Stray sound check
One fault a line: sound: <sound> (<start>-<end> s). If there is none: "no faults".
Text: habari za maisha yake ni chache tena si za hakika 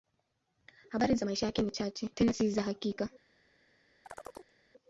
sound: chirp (4.0-4.5 s)